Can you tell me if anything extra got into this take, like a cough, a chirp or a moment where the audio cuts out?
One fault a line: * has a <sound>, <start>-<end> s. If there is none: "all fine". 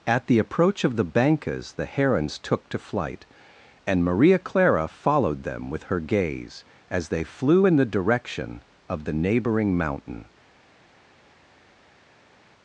all fine